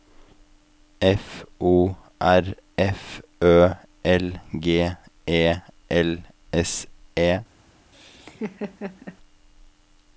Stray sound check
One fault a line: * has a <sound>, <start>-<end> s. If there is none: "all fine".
* has a laugh, 7.9-9.2 s